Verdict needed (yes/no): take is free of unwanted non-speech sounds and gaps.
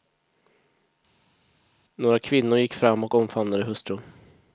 yes